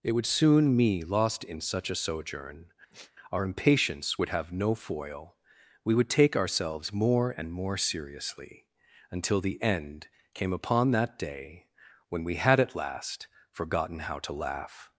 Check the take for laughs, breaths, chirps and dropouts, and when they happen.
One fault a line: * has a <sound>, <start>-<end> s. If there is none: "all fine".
* has a sigh, 2.9-3.1 s